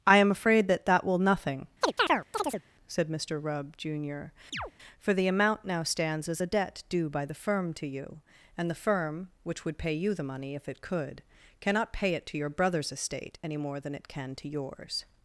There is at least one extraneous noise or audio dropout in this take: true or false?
true